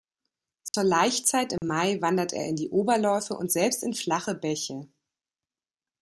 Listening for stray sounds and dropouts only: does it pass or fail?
fail